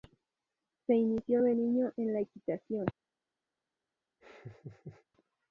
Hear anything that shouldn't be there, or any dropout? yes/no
yes